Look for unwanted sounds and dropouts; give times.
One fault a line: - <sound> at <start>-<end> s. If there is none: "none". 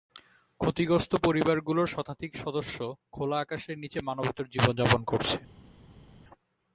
none